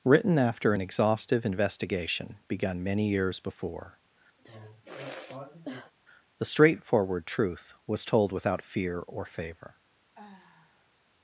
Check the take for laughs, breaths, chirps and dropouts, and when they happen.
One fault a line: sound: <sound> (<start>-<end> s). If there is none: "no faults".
sound: sigh (4.4-5.9 s)
sound: sigh (10.2-11.0 s)